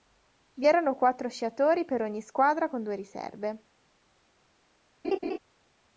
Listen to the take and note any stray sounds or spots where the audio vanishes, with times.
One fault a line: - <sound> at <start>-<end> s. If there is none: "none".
- laugh at 5.0-5.4 s